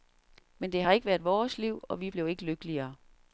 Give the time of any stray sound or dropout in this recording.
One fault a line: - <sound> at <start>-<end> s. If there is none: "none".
none